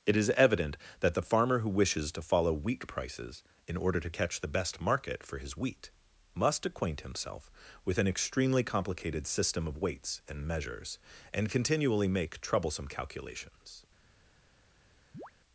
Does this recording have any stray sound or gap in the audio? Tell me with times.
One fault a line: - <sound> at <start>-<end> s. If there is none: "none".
- chirp at 15.1-15.3 s